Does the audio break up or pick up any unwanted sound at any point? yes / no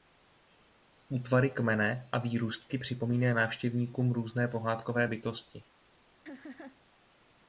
yes